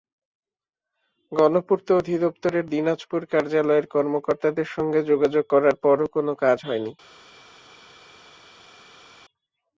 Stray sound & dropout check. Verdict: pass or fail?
pass